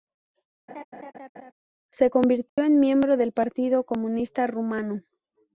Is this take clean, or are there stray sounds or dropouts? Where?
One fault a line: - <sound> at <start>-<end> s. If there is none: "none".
- laugh at 0.7-1.5 s
- dropout at 2.5-2.6 s